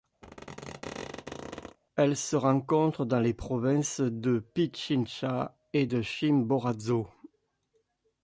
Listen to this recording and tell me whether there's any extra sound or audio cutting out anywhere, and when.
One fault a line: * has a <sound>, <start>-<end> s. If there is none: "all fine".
* has a squeak, 0.2-1.8 s